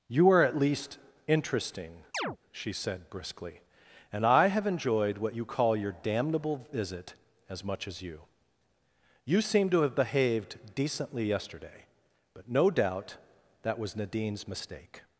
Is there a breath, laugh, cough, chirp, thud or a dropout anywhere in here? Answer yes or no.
yes